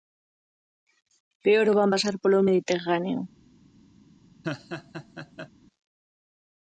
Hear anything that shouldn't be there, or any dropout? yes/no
yes